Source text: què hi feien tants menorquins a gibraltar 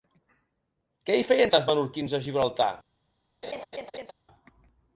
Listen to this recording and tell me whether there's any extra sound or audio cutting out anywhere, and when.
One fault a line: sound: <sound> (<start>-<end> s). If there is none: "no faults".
sound: laugh (3.4-4.1 s)